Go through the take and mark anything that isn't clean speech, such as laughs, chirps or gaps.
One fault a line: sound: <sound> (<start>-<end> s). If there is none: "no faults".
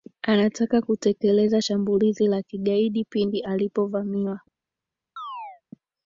sound: chirp (5.2-5.6 s)